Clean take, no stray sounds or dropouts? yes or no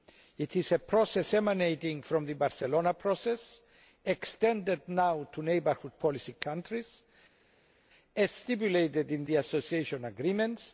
yes